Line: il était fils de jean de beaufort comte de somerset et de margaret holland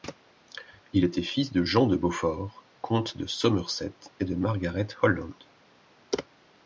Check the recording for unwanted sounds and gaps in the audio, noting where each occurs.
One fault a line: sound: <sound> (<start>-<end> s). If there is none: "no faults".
no faults